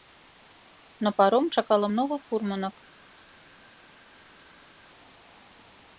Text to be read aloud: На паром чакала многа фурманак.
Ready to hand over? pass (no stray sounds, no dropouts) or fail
pass